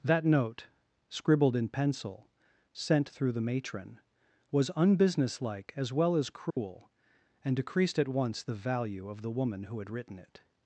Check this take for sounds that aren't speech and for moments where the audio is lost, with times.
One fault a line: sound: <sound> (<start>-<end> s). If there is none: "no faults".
sound: dropout (6.5-6.6 s)